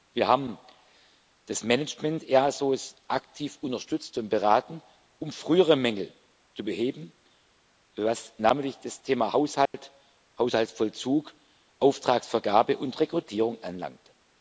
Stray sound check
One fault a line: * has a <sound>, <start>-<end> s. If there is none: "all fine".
* has a dropout, 9.7-9.7 s